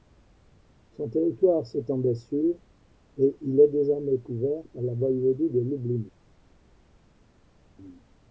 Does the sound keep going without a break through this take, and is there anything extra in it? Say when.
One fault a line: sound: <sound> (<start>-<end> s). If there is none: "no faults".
no faults